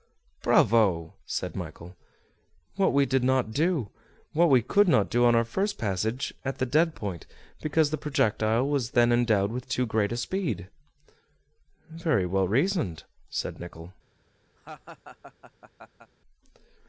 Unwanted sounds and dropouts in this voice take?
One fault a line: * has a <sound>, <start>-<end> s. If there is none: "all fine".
* has a laugh, 14.6-16.1 s